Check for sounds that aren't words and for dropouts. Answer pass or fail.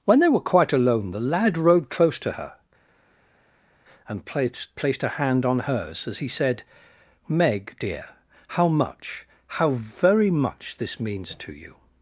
pass